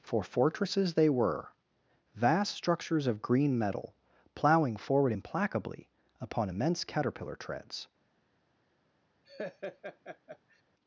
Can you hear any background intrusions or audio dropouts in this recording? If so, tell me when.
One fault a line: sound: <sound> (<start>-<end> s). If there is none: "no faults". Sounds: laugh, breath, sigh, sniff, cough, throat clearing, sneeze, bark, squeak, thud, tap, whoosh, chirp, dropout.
sound: laugh (9.2-10.6 s)